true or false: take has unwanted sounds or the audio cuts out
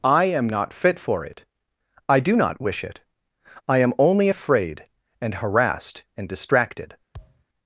true